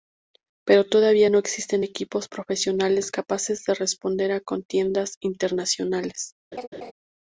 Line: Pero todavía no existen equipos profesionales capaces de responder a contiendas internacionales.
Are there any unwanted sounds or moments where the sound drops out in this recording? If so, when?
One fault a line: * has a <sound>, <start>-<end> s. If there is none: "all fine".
* has a laugh, 6.5-6.9 s